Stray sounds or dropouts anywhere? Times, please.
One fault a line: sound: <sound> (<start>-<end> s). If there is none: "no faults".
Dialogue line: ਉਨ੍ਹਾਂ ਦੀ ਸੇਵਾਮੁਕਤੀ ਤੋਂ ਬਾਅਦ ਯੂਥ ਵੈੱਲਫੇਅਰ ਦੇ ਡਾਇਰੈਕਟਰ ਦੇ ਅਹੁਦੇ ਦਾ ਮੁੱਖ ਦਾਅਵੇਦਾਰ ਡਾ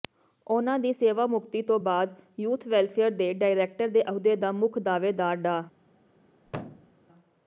sound: thud (6.4-7.0 s)